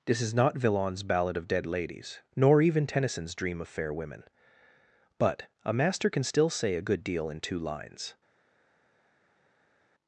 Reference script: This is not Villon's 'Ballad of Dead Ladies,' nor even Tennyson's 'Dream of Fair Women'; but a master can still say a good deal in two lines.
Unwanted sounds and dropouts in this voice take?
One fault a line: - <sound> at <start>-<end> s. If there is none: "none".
none